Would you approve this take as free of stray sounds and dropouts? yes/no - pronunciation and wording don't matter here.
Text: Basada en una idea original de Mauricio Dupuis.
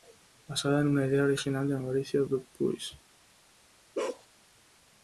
no